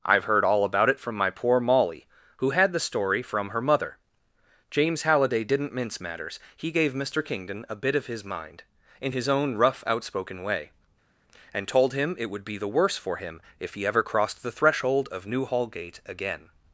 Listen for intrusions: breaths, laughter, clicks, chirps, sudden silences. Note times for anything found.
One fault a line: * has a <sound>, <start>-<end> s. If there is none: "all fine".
all fine